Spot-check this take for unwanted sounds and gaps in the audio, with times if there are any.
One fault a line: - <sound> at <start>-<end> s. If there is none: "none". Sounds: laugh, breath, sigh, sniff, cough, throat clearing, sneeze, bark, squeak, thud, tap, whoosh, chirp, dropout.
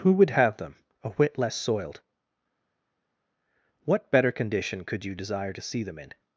none